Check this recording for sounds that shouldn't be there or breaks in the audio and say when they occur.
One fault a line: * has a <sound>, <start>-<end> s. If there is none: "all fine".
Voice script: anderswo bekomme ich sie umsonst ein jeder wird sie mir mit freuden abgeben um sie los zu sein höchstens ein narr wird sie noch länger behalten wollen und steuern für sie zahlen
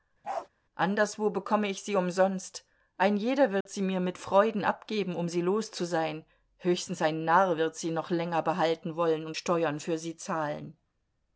* has a bark, 0.2-0.5 s
* has a dropout, 3.6-3.7 s